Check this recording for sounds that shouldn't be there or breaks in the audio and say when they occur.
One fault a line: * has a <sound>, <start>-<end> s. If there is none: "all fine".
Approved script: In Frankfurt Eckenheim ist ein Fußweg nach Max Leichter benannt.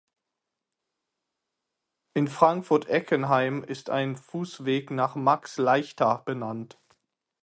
all fine